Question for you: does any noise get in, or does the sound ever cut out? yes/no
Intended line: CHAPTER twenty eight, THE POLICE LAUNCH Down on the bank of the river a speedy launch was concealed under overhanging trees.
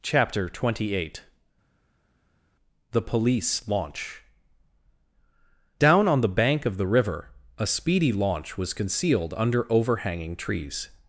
no